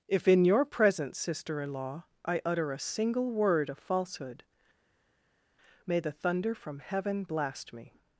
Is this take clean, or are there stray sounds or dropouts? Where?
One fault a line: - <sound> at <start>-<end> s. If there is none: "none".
none